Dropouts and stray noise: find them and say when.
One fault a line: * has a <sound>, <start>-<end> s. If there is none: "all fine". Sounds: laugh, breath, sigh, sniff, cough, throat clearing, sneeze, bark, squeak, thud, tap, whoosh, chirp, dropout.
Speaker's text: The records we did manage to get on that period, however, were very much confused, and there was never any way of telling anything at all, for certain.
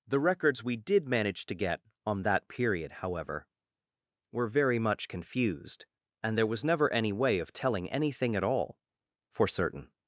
all fine